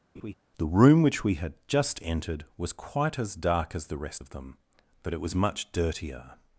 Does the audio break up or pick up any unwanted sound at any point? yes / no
yes